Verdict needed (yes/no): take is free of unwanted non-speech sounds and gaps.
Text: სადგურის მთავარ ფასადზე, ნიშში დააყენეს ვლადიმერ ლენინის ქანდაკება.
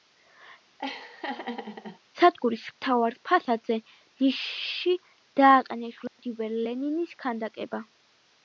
no